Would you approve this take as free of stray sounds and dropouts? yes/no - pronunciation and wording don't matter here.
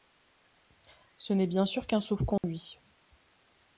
no